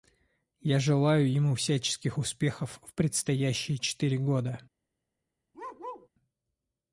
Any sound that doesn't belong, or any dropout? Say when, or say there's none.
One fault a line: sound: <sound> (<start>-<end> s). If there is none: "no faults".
sound: bark (5.5-6.1 s)